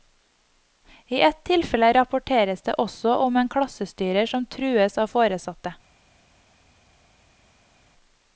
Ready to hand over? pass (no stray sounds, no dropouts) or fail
pass